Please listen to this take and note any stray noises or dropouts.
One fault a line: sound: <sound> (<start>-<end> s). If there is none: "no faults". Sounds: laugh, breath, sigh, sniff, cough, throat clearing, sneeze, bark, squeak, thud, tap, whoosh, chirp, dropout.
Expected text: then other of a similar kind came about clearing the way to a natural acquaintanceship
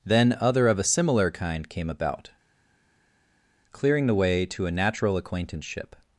no faults